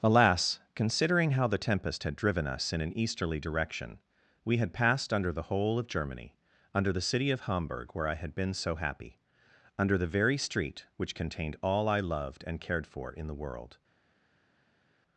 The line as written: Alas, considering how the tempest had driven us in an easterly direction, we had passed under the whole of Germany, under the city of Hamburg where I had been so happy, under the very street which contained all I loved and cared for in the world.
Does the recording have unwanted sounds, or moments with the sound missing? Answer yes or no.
no